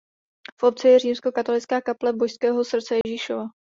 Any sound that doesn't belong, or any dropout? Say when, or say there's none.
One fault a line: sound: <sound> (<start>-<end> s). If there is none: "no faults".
sound: dropout (3.0-3.0 s)